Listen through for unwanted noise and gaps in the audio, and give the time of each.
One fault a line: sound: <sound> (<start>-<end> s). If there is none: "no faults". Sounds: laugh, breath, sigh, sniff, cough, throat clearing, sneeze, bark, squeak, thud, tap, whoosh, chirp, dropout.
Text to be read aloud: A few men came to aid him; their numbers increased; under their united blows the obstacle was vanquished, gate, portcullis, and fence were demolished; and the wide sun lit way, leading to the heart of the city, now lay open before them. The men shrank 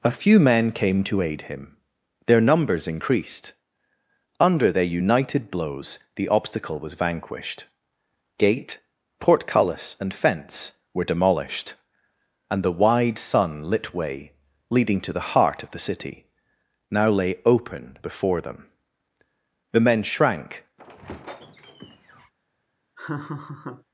sound: squeak (20.8-22.3 s)
sound: laugh (23.0-23.8 s)